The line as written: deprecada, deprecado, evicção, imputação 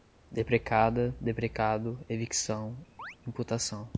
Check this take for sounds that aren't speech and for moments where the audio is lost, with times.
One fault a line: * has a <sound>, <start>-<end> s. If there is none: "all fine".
* has a chirp, 3.0-3.2 s